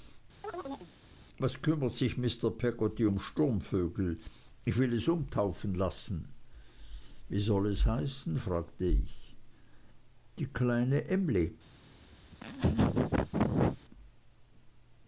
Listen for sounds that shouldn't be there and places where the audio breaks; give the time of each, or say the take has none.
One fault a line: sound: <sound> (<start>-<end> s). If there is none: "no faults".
sound: chirp (0.4-0.9 s)
sound: laugh (12.3-13.8 s)